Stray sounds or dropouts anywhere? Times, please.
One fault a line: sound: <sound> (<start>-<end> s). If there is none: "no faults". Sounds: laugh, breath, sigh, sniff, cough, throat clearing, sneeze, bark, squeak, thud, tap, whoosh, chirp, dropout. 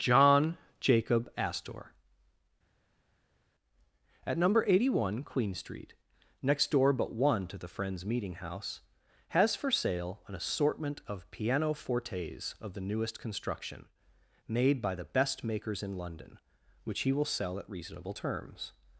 no faults